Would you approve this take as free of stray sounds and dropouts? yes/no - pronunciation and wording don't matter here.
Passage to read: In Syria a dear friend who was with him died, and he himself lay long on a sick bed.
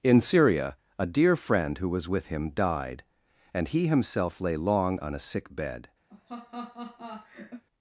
no